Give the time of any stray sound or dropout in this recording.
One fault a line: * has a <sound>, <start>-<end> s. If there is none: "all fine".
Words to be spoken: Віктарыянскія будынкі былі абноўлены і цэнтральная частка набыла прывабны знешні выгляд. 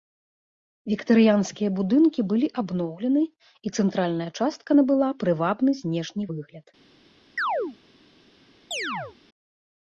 * has a chirp, 7.4-7.8 s
* has a chirp, 8.7-9.2 s